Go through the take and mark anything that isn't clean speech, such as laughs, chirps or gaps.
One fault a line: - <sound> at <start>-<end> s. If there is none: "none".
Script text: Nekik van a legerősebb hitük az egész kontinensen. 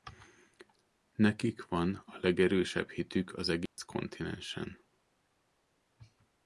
- dropout at 3.7-3.8 s